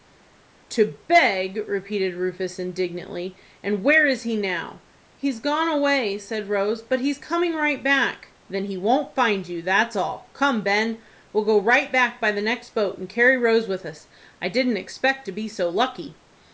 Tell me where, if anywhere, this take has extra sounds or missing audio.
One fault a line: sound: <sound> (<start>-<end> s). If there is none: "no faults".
no faults